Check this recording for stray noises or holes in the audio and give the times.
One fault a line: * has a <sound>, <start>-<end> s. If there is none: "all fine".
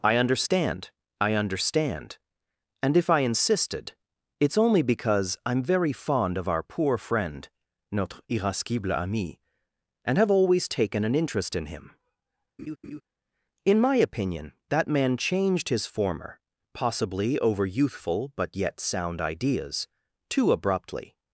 * has a laugh, 12.6-13.0 s